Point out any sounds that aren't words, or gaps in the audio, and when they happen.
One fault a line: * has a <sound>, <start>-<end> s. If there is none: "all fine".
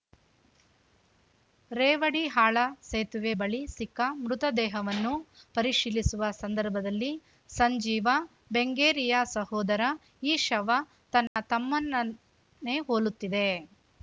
* has a dropout, 11.3-11.4 s